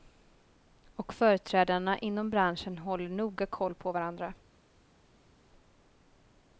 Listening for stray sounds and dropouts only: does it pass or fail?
pass